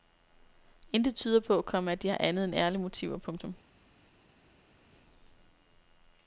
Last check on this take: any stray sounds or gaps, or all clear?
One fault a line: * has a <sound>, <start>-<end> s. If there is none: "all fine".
all fine